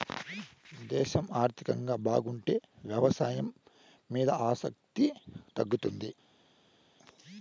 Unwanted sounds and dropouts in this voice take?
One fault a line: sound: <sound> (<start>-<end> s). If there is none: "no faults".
no faults